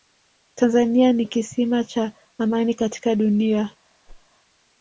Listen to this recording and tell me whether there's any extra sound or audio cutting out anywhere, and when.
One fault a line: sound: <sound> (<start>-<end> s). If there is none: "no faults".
sound: whoosh (4.1-4.3 s)